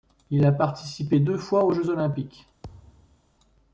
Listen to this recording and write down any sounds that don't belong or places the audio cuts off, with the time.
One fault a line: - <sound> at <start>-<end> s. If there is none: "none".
- thud at 2.6-3.2 s